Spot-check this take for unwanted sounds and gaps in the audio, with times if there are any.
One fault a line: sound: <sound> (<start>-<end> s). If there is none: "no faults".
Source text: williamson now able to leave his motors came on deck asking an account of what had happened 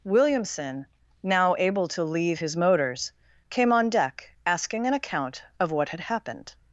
no faults